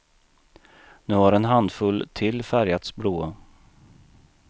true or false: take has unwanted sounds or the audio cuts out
false